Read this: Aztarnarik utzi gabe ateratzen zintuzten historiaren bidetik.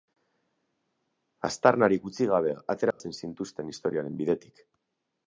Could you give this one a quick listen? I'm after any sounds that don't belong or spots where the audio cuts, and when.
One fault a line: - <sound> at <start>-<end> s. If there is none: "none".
- dropout at 2.9-3.0 s